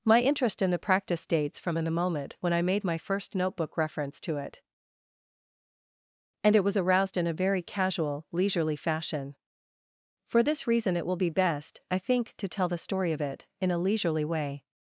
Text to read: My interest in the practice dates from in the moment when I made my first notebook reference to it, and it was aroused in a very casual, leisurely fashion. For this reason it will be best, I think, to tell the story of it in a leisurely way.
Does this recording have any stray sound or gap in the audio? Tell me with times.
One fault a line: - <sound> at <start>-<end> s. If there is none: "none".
none